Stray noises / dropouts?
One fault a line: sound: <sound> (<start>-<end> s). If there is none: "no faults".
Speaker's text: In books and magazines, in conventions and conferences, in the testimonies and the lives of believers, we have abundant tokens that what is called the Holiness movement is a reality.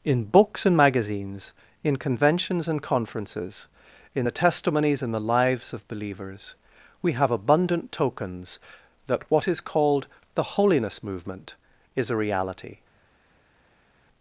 no faults